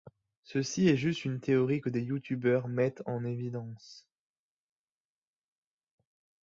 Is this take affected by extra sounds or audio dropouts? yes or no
no